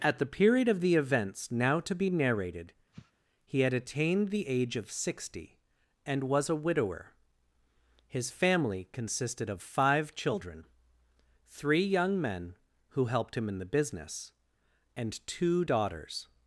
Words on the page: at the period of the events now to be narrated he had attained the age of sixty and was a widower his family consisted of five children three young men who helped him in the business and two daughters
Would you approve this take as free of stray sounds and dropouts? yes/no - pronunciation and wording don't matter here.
no